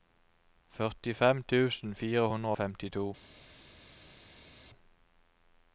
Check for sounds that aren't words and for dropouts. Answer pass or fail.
pass